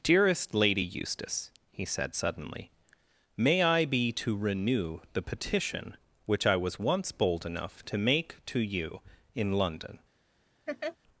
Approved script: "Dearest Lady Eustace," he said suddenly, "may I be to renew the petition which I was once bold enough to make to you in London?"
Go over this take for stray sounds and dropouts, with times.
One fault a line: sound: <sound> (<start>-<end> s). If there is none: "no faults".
sound: laugh (10.7-11.0 s)